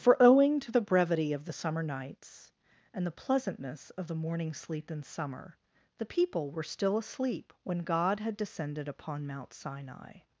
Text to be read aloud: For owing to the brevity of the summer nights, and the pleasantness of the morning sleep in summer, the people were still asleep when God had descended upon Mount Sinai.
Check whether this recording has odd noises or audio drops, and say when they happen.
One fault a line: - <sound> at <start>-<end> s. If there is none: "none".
none